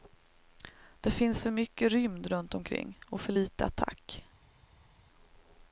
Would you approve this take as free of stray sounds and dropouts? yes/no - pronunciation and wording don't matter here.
yes